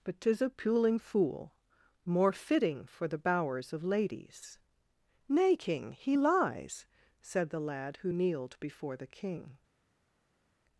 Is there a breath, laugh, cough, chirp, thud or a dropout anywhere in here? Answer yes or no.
no